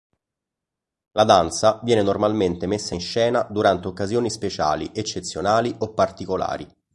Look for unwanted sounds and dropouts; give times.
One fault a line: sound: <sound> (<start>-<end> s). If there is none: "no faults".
no faults